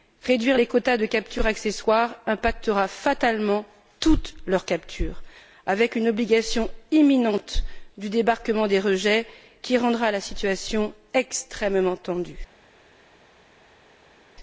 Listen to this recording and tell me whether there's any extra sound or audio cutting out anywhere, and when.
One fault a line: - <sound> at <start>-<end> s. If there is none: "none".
none